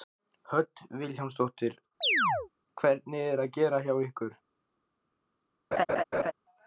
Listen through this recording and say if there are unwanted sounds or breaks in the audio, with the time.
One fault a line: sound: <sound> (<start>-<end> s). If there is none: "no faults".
sound: chirp (2.0-2.5 s)
sound: laugh (5.7-6.3 s)